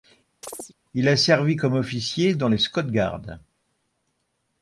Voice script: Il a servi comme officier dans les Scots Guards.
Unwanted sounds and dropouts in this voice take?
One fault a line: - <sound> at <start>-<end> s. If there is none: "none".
- chirp at 0.4-0.7 s